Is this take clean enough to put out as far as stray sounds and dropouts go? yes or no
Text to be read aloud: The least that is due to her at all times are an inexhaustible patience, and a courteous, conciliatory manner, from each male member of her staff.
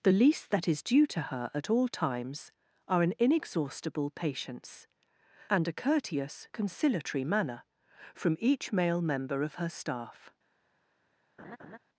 no